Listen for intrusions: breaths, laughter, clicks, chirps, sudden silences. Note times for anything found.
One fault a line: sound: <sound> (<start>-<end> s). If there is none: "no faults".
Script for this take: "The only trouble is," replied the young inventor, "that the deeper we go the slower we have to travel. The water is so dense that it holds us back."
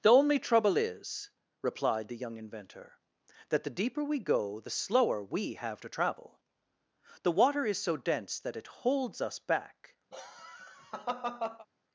sound: laugh (10.1-11.7 s)